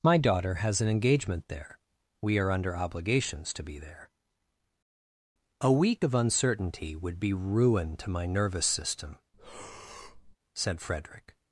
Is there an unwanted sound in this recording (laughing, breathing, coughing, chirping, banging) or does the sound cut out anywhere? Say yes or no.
yes